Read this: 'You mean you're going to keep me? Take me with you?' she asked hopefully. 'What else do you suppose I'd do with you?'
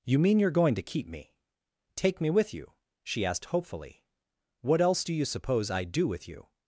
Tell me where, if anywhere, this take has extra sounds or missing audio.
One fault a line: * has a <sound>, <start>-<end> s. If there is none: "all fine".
all fine